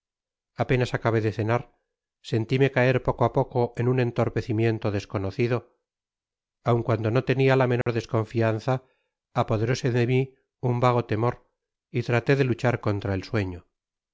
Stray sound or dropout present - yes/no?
yes